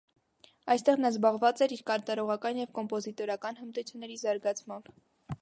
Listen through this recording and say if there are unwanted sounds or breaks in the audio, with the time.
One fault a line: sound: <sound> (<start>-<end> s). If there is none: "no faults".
no faults